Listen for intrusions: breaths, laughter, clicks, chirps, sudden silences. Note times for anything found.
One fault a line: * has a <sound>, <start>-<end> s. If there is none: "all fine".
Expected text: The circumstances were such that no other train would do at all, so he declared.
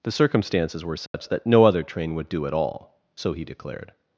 * has a dropout, 1.1-1.1 s